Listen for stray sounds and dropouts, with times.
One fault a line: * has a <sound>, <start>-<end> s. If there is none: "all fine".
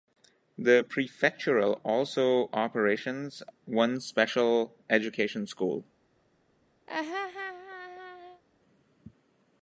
* has a laugh, 6.9-8.4 s